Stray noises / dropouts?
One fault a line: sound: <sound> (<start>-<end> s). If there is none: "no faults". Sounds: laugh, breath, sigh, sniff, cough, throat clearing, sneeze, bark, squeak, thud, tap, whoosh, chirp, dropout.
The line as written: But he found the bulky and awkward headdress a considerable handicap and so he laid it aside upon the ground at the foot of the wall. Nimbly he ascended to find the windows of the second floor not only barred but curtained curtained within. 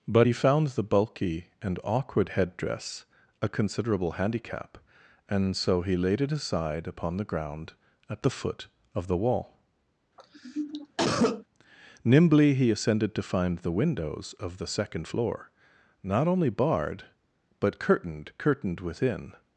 sound: cough (10.2-11.4 s)